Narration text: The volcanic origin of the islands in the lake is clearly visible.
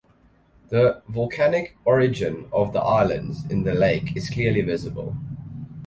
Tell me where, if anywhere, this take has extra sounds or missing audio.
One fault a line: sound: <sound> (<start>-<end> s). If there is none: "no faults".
no faults